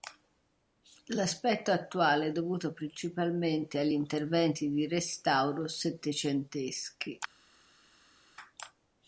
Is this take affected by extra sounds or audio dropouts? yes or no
no